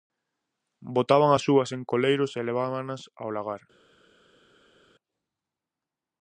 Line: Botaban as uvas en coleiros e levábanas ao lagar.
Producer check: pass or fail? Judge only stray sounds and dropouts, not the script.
pass